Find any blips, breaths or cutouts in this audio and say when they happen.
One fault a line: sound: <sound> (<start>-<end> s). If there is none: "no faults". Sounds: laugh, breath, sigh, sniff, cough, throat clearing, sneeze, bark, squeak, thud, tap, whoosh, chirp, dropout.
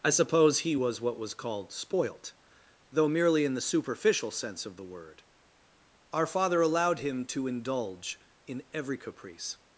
no faults